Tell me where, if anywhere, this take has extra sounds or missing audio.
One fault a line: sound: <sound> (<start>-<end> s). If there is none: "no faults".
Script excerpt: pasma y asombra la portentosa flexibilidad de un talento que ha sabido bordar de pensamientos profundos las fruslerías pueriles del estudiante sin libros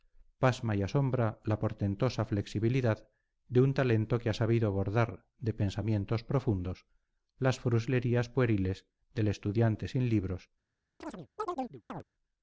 sound: chirp (11.0-12.0 s)